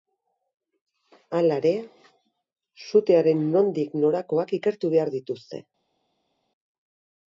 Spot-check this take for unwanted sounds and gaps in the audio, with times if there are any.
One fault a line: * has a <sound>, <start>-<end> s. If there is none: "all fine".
all fine